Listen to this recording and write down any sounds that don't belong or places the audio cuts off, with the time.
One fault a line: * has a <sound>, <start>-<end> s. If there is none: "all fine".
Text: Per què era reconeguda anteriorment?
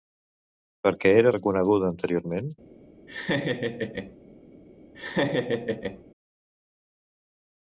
* has a laugh, 3.1-4.2 s
* has a laugh, 4.9-6.0 s